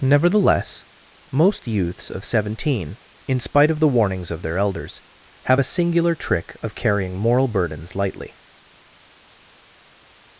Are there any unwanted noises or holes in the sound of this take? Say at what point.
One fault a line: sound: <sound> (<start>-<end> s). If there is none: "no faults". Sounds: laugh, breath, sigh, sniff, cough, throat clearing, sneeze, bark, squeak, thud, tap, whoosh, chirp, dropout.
no faults